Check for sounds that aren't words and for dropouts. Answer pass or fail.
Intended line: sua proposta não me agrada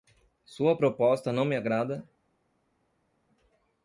pass